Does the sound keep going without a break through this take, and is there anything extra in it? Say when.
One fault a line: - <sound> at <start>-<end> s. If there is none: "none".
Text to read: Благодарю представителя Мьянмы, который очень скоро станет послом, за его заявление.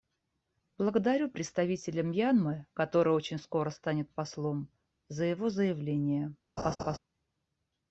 - laugh at 6.6-7.0 s